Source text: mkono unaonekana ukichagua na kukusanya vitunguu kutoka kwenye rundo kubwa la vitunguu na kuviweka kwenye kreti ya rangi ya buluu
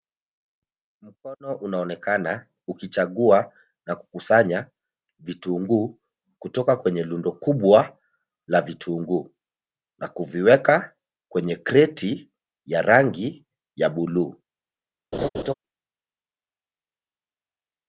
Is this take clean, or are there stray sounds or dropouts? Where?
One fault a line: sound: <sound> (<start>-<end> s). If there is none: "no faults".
sound: laugh (15.1-15.5 s)